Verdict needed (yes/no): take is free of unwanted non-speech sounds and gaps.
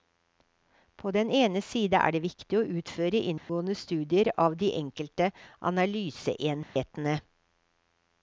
no